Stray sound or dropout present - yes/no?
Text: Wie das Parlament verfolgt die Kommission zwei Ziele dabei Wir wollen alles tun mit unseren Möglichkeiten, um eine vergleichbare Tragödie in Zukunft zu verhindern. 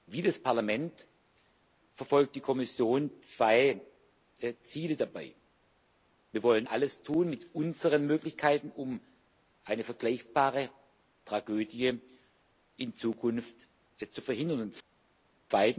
no